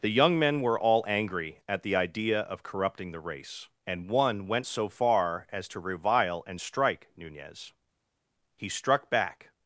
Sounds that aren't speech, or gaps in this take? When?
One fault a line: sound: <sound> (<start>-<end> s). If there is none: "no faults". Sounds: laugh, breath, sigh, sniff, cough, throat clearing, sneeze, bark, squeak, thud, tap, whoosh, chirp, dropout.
no faults